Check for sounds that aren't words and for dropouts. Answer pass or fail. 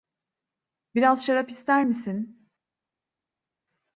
pass